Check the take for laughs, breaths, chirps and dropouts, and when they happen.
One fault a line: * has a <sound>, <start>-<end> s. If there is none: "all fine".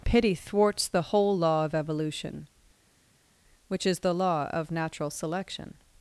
all fine